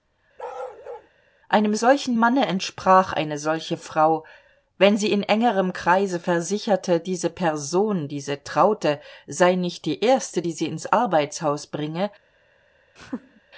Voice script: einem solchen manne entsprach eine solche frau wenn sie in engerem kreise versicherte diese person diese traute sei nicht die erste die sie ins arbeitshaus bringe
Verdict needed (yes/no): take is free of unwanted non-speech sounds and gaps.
no